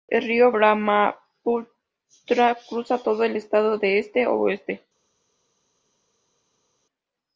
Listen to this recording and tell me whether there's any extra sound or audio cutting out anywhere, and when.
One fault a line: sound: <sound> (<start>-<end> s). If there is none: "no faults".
no faults